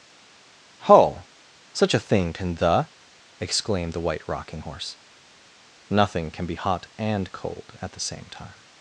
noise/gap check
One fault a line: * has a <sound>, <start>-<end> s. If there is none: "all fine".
all fine